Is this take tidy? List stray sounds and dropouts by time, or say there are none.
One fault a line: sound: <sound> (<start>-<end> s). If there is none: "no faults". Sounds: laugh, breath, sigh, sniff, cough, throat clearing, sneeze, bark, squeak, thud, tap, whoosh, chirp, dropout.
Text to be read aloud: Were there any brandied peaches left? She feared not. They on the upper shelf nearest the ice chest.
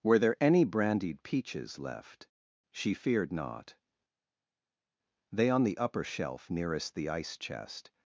no faults